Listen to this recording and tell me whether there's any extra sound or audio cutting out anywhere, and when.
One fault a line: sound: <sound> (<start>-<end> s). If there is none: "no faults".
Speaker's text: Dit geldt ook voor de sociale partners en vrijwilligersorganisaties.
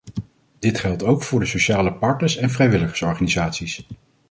no faults